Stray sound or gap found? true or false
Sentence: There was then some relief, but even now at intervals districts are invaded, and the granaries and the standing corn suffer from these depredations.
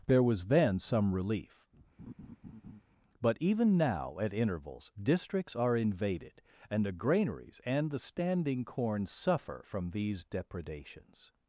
true